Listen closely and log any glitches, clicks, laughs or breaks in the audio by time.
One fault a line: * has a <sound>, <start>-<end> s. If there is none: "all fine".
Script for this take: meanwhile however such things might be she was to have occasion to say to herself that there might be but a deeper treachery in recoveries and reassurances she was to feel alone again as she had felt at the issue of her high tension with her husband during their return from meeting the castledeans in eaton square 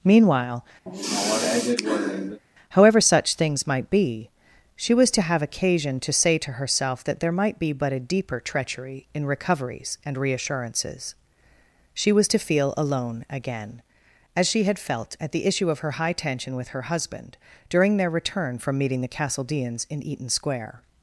* has a sigh, 0.9-2.4 s